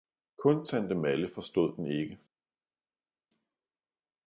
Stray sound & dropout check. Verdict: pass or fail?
pass